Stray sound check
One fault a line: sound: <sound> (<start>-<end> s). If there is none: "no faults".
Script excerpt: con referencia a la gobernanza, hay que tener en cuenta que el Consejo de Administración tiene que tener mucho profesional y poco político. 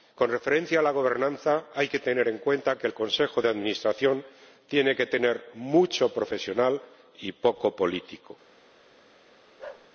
sound: bark (9.6-9.9 s)